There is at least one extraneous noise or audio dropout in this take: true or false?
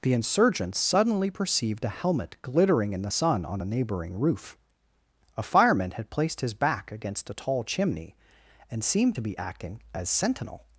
false